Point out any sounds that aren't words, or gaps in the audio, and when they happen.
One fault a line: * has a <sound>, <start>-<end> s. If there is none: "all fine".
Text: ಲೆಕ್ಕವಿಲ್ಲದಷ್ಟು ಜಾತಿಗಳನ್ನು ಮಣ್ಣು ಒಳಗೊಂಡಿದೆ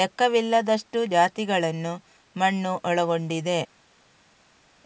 all fine